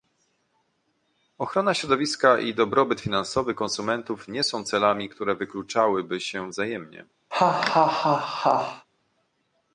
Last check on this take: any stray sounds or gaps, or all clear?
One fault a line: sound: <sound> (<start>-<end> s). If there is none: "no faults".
sound: laugh (7.3-8.9 s)